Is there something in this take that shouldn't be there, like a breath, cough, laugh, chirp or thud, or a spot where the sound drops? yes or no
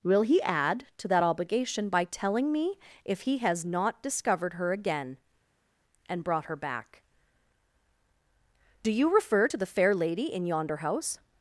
no